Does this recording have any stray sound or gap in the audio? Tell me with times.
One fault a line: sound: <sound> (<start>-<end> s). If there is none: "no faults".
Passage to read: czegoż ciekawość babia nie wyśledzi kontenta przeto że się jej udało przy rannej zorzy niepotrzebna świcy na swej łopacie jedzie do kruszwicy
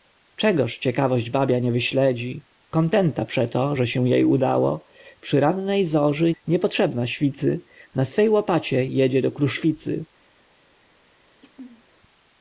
sound: throat clearing (11.4-11.8 s)